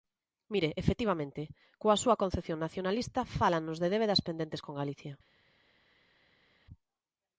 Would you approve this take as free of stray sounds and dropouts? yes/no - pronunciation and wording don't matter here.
yes